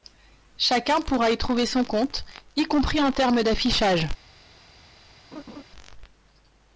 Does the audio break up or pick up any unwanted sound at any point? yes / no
yes